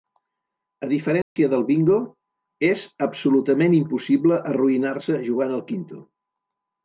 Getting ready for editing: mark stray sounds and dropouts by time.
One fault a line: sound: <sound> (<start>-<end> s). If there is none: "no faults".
sound: dropout (1.2-1.4 s)